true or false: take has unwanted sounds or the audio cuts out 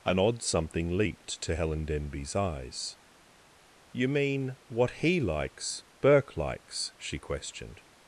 false